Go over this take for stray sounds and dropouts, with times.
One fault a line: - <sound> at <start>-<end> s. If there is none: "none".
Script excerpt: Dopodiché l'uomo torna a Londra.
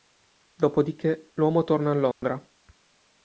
- dropout at 2.1-2.2 s